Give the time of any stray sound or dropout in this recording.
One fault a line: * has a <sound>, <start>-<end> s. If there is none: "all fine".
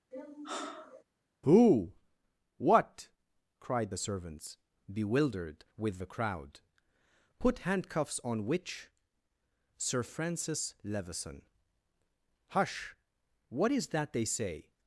* has a sigh, 0.1-1.0 s